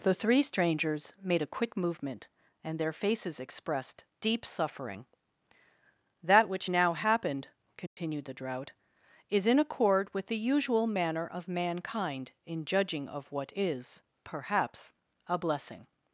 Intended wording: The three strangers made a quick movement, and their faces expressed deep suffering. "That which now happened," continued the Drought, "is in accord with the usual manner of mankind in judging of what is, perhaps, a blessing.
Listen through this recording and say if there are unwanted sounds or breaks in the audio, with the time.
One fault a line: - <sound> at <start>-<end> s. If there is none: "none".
- dropout at 7.9-8.0 s